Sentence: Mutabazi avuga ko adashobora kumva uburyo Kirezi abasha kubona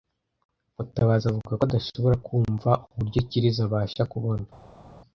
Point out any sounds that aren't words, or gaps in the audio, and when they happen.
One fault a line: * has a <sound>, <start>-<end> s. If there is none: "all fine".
all fine